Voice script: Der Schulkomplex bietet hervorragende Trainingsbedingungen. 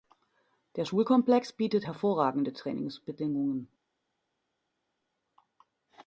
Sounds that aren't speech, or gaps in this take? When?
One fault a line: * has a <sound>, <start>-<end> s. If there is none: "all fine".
all fine